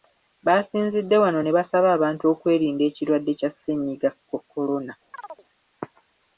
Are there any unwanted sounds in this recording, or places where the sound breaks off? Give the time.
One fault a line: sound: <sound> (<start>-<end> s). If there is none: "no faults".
sound: chirp (5.1-5.4 s)